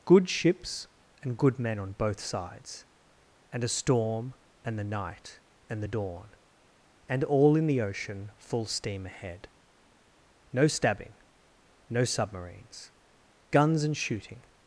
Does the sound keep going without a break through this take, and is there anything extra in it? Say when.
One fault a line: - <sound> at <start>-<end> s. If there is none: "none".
none